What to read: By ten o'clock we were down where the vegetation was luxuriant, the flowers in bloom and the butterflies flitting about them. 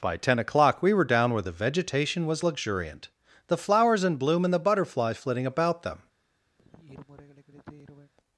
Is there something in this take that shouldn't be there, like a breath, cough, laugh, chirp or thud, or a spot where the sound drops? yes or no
yes